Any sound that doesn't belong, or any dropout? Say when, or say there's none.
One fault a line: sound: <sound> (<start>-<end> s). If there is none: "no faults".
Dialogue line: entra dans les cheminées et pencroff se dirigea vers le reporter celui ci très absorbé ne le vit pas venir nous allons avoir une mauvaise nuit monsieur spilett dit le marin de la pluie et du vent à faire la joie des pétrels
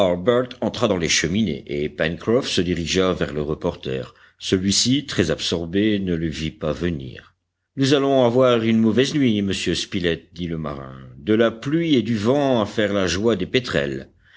no faults